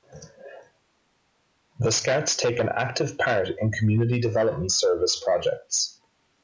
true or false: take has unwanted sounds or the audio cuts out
false